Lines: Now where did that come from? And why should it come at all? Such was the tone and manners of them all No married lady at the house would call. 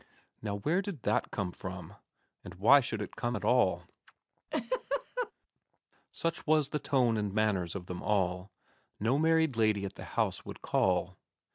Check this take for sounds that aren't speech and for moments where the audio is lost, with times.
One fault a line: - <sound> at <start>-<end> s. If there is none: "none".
- laugh at 4.5-5.3 s